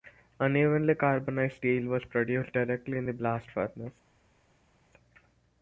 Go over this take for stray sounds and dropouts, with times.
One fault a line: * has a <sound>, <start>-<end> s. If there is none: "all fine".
all fine